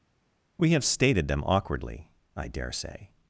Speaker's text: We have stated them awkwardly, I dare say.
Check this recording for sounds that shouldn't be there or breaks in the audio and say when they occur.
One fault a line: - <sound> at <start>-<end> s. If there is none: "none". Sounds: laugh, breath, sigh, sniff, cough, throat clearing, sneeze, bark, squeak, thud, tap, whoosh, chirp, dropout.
none